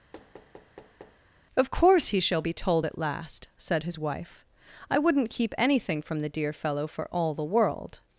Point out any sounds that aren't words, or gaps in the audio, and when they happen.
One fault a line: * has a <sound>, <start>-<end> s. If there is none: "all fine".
* has a thud, 0.1-1.2 s